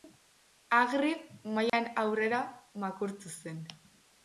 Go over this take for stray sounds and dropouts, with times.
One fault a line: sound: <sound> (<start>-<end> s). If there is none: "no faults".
sound: dropout (1.7-1.7 s)